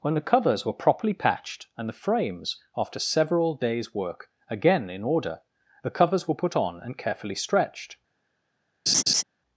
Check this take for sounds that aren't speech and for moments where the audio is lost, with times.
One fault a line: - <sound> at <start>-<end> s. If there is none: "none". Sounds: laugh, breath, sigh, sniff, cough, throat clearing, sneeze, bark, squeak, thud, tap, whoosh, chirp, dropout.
- laugh at 8.9-9.2 s